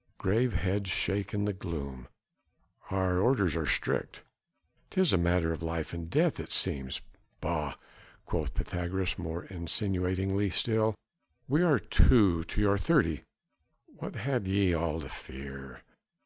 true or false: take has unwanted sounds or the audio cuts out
false